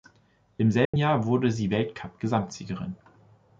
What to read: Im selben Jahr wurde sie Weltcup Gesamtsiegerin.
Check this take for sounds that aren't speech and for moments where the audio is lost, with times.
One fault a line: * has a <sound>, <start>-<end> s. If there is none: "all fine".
* has a dropout, 0.8-0.9 s